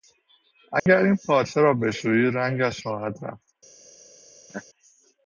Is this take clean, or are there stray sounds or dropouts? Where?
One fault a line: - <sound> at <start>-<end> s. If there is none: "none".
- dropout at 0.8-0.9 s
- laugh at 4.5-4.6 s